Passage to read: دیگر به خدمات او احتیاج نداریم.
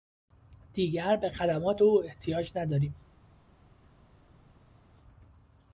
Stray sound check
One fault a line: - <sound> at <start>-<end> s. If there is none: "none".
none